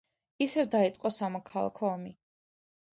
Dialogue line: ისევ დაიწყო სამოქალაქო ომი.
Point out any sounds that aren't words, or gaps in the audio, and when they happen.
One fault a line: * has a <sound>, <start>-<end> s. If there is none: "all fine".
all fine